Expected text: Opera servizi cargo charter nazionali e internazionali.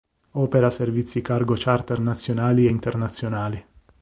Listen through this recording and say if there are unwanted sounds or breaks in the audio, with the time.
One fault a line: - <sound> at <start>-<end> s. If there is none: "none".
none